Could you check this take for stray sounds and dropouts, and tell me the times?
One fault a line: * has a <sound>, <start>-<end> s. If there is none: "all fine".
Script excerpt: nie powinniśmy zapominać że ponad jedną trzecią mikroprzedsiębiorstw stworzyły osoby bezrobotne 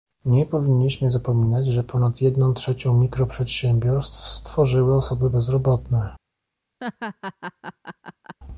* has a laugh, 6.8-8.4 s